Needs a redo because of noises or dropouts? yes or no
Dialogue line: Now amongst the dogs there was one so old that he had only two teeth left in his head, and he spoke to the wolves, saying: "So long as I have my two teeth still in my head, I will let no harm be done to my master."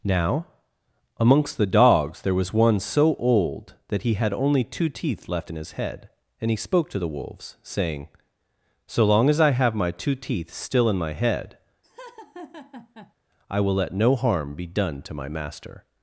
yes